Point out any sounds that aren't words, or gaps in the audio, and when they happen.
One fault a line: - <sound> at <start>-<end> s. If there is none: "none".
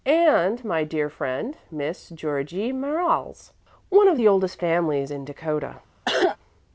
- cough at 6.1-6.4 s